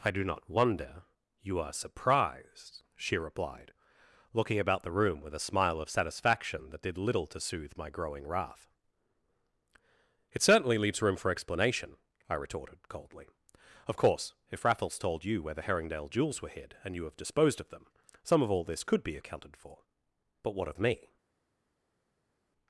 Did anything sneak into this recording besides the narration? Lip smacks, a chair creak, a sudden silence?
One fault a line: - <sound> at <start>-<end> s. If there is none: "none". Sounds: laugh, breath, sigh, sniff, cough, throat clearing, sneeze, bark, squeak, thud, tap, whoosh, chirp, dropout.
none